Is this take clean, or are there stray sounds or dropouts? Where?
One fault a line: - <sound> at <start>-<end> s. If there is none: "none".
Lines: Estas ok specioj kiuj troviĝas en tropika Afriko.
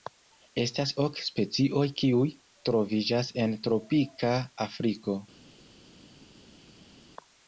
none